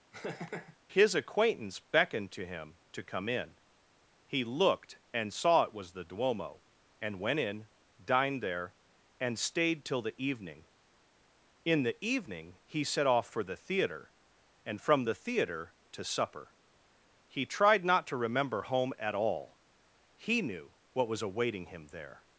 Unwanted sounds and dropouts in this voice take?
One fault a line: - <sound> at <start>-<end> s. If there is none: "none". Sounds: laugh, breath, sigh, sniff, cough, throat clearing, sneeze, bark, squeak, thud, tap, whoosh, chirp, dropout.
- laugh at 0.1-0.8 s